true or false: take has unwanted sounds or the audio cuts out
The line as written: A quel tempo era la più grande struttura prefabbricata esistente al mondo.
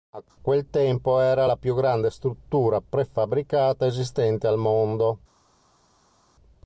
false